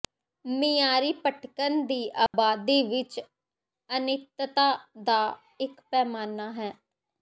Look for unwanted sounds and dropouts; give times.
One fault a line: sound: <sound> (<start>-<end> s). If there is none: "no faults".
sound: dropout (2.3-2.3 s)